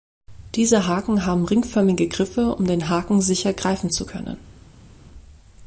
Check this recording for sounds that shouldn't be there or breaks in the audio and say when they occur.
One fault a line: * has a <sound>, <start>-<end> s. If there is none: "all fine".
all fine